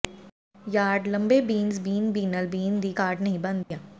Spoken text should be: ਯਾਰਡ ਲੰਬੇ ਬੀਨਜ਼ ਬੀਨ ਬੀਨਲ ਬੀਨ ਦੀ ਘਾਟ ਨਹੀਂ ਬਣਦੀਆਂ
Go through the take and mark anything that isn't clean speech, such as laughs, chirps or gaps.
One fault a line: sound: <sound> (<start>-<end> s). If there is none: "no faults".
sound: dropout (3.6-3.7 s)